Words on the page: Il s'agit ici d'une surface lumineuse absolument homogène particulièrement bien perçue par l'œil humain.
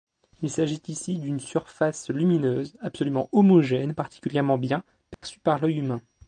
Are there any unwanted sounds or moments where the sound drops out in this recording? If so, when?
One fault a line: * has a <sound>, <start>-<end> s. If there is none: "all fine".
* has a dropout, 5.1-5.2 s